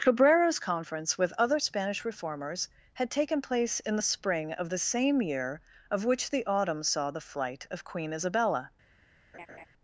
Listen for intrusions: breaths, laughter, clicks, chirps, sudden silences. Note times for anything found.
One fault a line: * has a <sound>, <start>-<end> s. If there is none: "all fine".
* has a laugh, 9.3-9.7 s